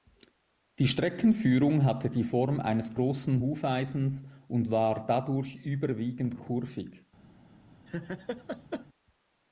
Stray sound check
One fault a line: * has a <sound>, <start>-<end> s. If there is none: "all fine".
* has a laugh, 7.9-8.9 s